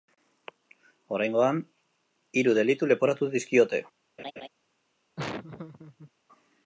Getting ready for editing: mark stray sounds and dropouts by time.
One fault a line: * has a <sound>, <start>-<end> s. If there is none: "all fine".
* has a laugh, 4.2-4.5 s
* has a laugh, 5.2-6.1 s